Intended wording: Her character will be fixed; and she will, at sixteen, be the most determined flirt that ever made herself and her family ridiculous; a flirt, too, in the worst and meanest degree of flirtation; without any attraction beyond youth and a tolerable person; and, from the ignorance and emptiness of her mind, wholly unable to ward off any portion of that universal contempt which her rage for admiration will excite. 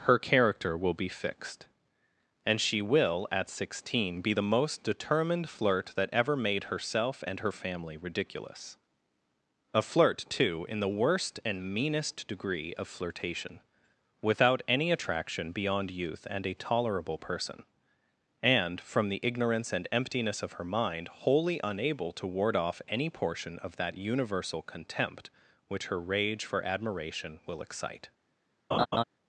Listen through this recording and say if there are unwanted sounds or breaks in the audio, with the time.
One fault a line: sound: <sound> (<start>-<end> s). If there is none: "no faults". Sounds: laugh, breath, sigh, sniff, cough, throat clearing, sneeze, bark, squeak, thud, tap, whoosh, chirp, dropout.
sound: laugh (28.7-29.0 s)